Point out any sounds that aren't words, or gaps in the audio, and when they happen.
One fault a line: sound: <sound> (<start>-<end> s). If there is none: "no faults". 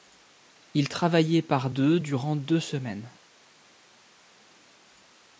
no faults